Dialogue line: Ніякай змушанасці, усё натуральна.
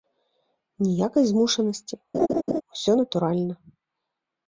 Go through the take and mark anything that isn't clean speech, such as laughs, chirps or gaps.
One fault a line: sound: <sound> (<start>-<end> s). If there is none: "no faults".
sound: laugh (2.1-2.6 s)